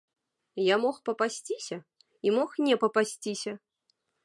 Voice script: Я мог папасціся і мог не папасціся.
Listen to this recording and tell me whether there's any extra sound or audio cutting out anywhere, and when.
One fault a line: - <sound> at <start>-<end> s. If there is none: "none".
none